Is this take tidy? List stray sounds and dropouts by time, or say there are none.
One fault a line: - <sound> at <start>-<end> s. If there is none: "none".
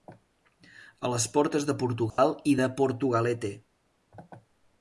- dropout at 2.1-2.2 s